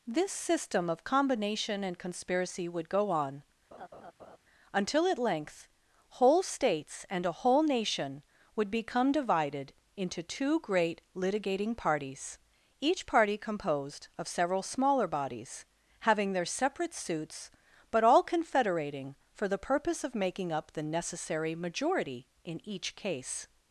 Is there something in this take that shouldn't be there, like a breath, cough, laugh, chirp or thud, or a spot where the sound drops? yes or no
yes